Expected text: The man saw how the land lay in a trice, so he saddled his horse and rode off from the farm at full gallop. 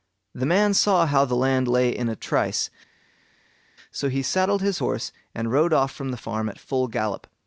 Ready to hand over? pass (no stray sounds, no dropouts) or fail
pass